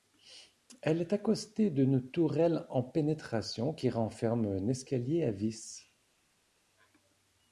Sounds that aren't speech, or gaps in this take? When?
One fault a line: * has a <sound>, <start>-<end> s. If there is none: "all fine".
all fine